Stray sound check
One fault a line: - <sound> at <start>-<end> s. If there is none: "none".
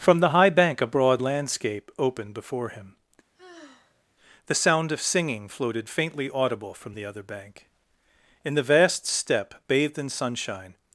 - sigh at 3.3-4.0 s